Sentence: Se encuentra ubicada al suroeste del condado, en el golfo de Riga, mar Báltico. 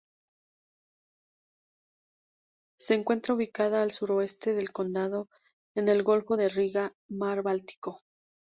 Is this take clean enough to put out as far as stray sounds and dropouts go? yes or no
yes